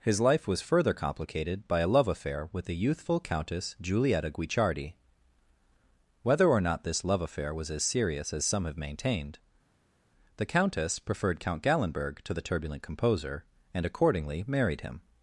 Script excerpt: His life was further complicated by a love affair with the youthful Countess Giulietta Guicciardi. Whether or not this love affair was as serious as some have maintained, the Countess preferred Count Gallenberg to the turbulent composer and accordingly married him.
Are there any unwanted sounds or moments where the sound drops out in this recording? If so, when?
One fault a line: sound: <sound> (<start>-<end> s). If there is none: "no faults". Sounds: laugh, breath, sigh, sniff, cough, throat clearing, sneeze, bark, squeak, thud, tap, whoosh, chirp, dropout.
no faults